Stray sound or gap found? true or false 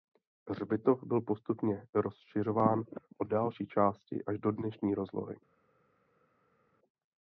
false